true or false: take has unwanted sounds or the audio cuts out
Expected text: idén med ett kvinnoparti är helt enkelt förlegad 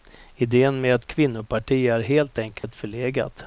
true